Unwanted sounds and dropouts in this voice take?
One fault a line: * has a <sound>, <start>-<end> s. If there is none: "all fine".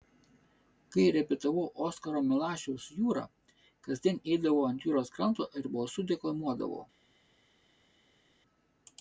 all fine